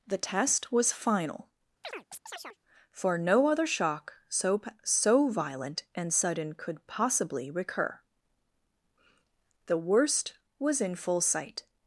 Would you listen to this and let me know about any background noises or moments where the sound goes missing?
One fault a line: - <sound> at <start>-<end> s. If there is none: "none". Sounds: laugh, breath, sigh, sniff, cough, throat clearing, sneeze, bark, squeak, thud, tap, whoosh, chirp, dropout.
- chirp at 1.8-2.6 s